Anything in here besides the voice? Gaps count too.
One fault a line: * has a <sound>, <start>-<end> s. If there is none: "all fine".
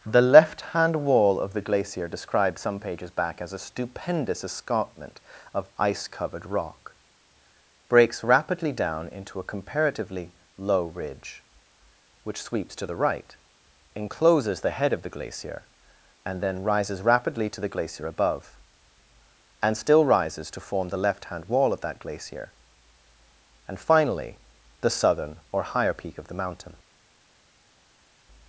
all fine